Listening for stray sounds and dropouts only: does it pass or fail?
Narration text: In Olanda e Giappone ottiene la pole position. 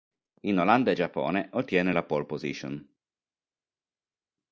pass